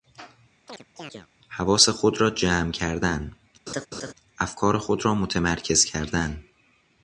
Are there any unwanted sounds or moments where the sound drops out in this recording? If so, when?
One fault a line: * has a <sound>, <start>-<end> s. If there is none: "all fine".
* has a chirp, 0.7-1.3 s
* has a laugh, 3.7-4.1 s